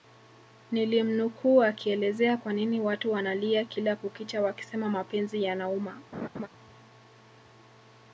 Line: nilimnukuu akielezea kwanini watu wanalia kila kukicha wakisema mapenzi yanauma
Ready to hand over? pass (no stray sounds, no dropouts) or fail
fail